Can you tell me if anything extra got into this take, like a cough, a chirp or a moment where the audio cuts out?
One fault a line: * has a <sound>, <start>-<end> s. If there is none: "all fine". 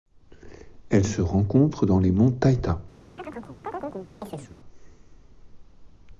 * has a chirp, 3.2-4.6 s